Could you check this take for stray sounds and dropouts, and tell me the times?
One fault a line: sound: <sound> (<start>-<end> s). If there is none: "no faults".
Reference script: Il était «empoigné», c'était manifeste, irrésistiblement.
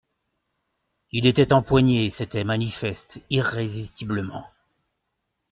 no faults